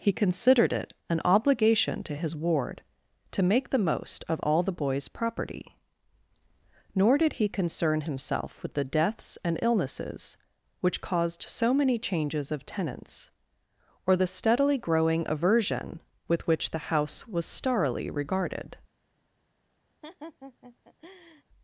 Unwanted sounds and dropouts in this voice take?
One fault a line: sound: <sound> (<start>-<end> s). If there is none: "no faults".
sound: laugh (20.0-21.4 s)